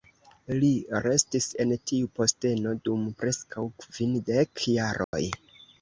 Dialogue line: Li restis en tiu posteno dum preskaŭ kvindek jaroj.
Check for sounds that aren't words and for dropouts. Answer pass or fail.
fail